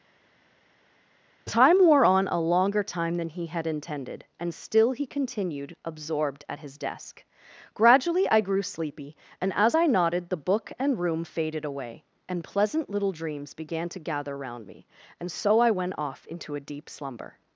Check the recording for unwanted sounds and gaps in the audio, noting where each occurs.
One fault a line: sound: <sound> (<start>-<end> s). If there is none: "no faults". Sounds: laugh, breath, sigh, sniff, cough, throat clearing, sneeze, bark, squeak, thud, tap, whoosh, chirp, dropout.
no faults